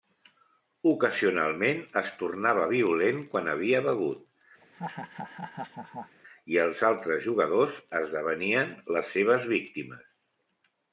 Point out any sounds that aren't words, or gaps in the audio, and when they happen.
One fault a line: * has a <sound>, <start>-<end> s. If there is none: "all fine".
* has a laugh, 4.6-6.2 s